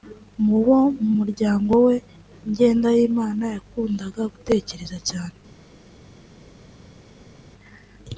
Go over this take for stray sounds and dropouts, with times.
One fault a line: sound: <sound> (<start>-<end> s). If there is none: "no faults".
no faults